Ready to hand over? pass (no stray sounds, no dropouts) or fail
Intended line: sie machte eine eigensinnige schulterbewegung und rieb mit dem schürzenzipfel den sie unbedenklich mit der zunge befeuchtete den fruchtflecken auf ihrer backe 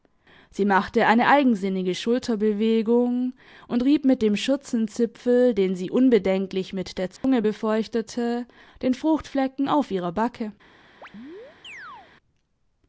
fail